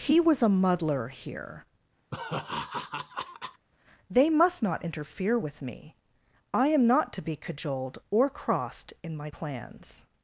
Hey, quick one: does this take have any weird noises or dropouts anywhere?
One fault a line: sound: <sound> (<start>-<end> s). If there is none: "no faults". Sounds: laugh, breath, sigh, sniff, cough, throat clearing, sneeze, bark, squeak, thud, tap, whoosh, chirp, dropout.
sound: laugh (2.1-3.7 s)